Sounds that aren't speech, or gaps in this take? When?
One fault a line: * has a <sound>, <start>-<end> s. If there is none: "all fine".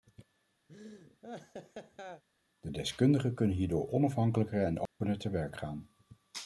* has a laugh, 0.7-2.2 s
* has a dropout, 4.9-5.0 s